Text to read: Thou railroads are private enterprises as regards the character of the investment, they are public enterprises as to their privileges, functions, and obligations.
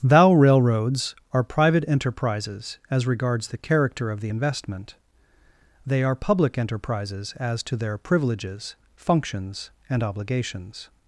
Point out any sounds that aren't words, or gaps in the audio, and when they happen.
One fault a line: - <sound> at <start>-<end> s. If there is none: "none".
none